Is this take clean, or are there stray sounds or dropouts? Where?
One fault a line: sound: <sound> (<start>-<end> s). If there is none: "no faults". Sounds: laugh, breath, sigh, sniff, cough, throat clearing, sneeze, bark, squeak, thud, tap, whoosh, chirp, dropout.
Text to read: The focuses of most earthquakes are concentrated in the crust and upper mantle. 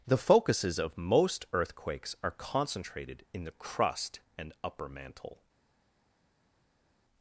no faults